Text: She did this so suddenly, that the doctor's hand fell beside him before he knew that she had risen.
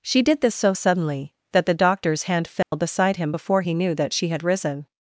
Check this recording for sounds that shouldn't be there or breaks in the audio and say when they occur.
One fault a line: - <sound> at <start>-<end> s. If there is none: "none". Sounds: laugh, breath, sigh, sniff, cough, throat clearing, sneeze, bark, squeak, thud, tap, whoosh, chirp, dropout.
- dropout at 2.6-2.7 s